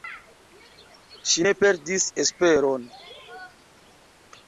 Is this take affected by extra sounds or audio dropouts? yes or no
no